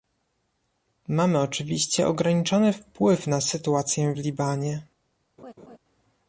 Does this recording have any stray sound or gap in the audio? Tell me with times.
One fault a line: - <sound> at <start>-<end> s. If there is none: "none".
- laugh at 5.4-5.8 s